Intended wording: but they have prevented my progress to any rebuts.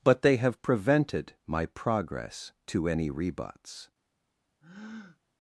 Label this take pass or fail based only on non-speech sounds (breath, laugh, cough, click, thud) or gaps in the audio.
fail